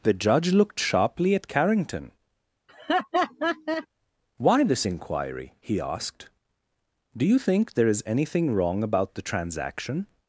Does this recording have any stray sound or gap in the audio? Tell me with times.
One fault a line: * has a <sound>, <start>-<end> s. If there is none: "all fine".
* has a laugh, 2.7-3.9 s